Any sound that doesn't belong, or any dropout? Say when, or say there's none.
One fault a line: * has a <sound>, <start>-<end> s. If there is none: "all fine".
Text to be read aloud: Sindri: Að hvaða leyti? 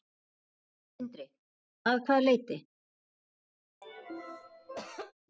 * has a cough, 3.8-5.1 s